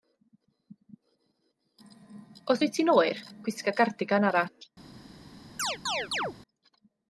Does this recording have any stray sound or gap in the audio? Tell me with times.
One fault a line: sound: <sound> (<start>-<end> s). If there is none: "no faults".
sound: chirp (5.6-6.4 s)